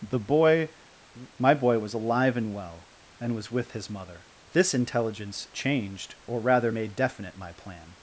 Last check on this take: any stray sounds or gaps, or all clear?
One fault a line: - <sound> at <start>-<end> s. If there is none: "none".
none